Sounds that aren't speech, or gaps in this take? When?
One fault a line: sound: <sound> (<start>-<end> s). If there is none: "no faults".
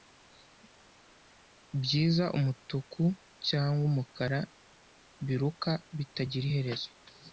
no faults